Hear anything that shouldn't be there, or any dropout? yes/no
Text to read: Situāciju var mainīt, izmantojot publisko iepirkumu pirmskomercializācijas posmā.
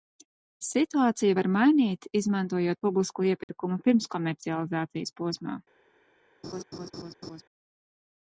yes